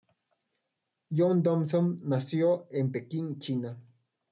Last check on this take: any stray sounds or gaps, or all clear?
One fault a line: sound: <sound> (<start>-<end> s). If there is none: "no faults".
no faults